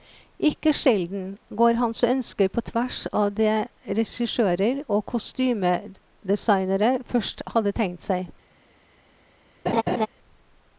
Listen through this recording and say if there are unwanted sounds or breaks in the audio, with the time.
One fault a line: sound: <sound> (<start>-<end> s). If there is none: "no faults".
sound: laugh (9.7-10.1 s)